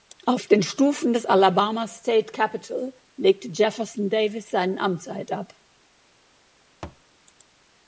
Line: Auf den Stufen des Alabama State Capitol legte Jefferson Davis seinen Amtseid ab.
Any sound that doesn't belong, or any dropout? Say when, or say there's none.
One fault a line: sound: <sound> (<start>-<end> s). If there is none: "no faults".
sound: thud (6.8-7.0 s)